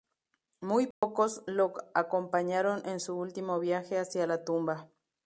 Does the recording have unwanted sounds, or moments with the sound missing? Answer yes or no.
yes